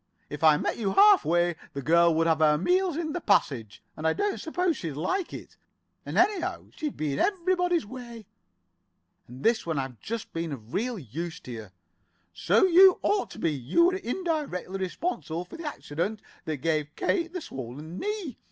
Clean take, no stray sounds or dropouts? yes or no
yes